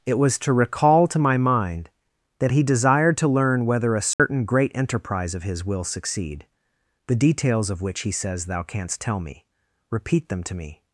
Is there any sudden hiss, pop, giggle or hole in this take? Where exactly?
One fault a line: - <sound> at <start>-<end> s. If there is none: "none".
- dropout at 4.1-4.2 s